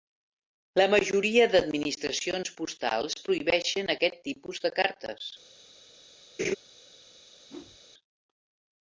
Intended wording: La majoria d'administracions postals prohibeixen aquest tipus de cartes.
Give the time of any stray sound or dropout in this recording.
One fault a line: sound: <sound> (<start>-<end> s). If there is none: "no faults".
sound: laugh (6.4-6.6 s)
sound: whoosh (7.5-7.8 s)